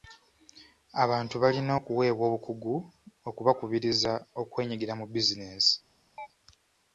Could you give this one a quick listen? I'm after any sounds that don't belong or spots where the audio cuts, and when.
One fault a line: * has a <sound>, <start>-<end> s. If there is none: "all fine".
* has a chirp, 6.2-6.3 s